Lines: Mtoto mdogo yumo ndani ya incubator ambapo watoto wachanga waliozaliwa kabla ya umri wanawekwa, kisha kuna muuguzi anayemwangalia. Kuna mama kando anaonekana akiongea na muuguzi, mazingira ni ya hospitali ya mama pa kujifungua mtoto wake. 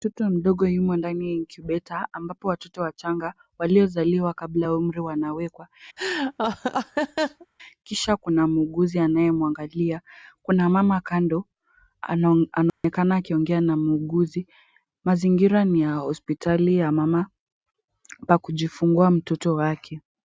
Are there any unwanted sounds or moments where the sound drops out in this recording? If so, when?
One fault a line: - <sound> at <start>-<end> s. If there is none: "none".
- laugh at 6.0-7.5 s
- dropout at 12.7-12.8 s